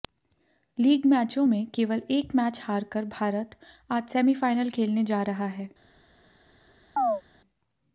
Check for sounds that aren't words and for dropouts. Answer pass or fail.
fail